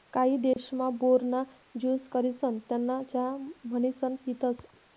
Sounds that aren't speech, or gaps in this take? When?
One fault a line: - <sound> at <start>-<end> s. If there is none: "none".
- dropout at 0.5-0.6 s